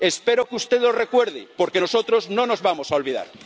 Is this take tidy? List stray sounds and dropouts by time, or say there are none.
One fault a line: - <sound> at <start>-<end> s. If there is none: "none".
none